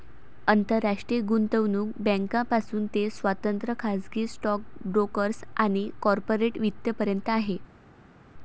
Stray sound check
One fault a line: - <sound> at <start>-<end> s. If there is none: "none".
none